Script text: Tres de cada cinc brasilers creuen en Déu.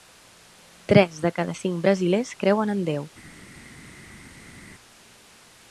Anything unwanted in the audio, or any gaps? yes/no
no